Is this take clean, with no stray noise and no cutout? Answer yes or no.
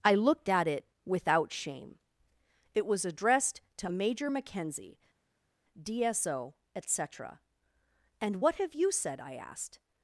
yes